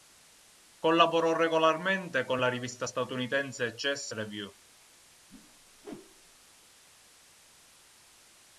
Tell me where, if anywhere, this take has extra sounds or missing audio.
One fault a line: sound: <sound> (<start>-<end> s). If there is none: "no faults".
sound: whoosh (5.3-6.4 s)